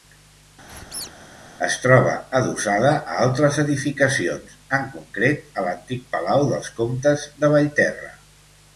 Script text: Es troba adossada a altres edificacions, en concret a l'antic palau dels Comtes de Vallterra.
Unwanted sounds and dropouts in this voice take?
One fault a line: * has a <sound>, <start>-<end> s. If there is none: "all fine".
* has a squeak, 0.7-1.1 s